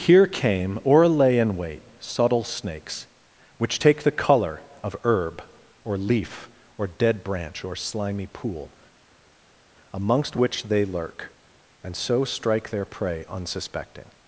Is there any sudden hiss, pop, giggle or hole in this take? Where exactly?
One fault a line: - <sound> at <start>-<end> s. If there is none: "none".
none